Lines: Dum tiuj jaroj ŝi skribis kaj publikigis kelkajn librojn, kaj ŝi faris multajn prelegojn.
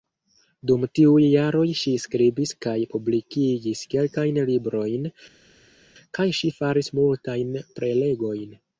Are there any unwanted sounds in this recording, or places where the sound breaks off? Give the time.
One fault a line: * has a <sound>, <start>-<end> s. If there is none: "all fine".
all fine